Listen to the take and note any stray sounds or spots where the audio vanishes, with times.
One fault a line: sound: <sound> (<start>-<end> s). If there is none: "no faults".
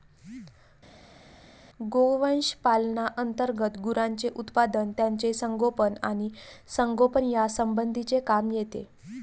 no faults